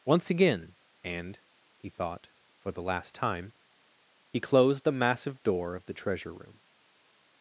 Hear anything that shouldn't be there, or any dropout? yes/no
no